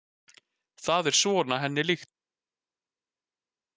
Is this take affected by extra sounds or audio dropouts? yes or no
no